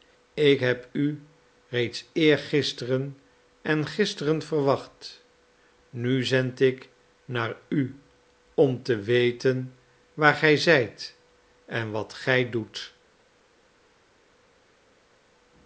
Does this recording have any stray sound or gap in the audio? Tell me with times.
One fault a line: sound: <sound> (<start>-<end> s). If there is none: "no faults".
no faults